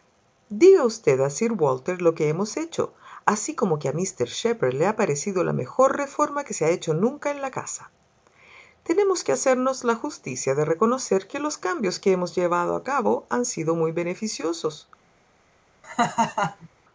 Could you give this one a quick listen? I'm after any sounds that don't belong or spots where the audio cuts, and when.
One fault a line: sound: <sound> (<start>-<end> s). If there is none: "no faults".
sound: laugh (15.8-16.7 s)